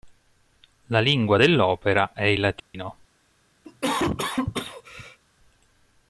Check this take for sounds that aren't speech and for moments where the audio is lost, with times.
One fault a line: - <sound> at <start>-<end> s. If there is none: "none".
- dropout at 2.6-2.7 s
- cough at 3.6-5.2 s